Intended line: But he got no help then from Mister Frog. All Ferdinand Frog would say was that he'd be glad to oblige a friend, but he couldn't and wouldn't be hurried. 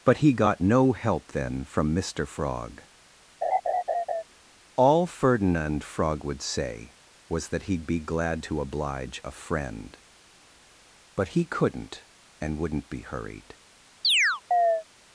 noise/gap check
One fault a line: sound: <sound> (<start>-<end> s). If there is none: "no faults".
sound: laugh (3.4-4.2 s)
sound: chirp (14.0-14.8 s)